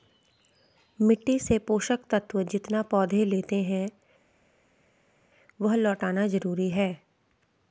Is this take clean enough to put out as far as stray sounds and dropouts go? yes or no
yes